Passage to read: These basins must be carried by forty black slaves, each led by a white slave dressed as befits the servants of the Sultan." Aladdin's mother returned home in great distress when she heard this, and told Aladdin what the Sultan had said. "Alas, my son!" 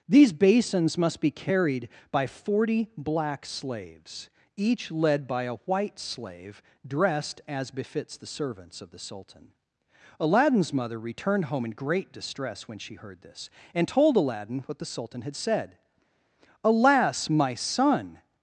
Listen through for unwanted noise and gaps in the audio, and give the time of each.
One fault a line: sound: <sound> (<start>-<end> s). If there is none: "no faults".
no faults